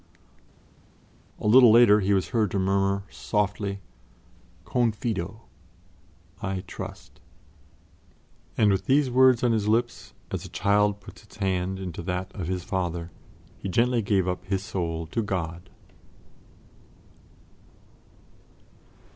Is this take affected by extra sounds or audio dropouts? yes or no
no